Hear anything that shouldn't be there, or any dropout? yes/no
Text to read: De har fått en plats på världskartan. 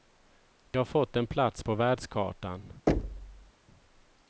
yes